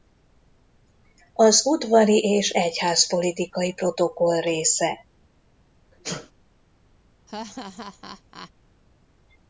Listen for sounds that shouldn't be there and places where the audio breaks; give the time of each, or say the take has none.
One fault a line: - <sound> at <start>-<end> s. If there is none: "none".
- sneeze at 5.9-6.3 s
- laugh at 7.3-8.5 s